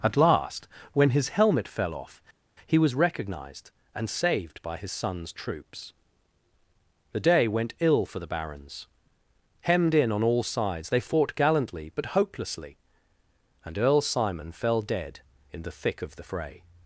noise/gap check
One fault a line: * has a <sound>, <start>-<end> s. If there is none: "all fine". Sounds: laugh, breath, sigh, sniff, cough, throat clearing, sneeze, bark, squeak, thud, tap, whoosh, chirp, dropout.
all fine